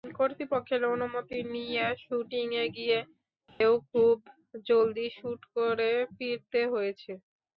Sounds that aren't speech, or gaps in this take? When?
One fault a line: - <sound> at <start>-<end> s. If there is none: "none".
- dropout at 3.5-3.6 s